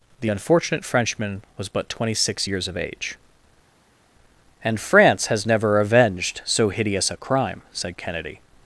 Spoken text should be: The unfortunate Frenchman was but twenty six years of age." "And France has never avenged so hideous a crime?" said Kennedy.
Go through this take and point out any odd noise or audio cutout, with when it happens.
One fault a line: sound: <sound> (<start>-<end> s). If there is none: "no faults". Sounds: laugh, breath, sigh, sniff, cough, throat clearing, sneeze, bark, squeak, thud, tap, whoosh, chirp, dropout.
no faults